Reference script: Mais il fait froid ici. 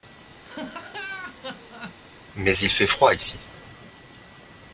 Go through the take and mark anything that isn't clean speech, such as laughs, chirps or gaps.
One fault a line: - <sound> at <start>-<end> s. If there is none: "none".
- laugh at 0.4-2.0 s